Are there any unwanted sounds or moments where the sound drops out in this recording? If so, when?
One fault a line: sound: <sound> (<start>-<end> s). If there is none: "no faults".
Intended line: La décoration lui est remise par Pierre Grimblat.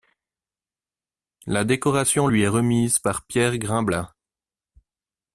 no faults